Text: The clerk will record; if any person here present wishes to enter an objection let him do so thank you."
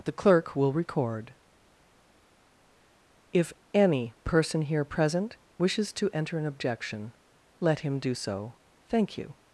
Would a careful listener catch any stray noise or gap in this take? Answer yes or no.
no